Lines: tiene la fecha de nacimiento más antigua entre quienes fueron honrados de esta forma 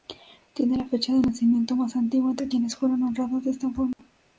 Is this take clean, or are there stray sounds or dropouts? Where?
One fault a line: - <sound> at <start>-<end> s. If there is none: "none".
- dropout at 3.9-4.0 s